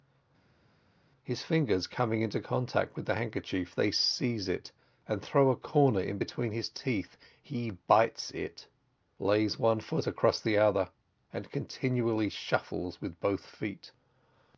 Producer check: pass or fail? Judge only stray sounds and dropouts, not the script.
pass